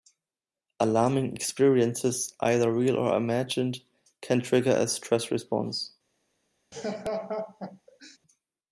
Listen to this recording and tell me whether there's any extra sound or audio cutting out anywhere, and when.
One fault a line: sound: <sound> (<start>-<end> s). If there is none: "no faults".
sound: laugh (6.7-8.2 s)